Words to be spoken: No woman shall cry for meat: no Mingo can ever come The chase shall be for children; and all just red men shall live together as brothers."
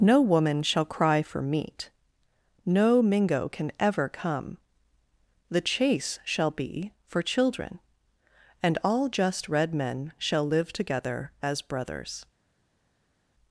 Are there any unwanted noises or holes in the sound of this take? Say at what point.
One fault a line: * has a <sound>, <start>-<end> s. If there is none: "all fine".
all fine